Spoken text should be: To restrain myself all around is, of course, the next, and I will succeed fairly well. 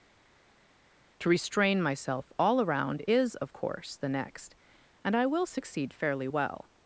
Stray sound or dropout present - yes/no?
no